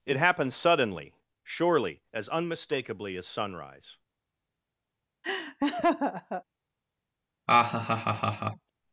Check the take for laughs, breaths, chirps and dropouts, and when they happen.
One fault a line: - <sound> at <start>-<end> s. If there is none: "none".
- laugh at 5.2-6.4 s
- laugh at 7.5-8.7 s